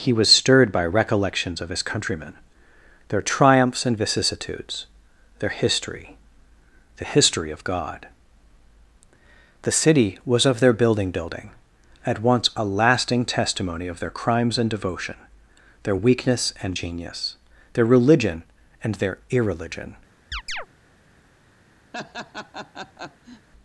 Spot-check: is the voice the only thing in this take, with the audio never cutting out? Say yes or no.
no